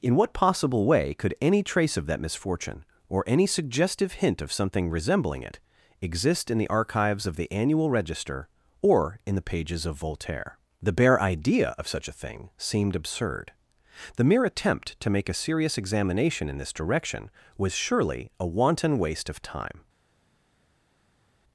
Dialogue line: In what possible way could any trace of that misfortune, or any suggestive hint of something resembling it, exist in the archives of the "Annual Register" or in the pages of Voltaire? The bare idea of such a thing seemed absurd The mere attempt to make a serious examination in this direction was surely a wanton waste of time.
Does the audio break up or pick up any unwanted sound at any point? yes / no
no